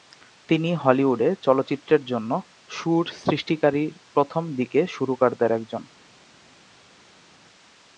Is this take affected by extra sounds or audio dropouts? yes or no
no